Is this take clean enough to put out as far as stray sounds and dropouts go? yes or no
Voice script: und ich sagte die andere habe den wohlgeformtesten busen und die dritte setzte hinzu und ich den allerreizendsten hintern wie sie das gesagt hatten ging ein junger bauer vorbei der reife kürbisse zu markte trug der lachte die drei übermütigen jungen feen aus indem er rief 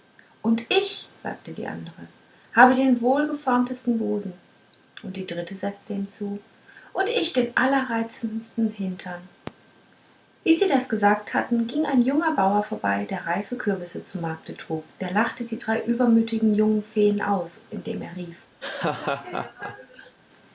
no